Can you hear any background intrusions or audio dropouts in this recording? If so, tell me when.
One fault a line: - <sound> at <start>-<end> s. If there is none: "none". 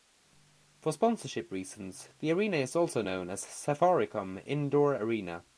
none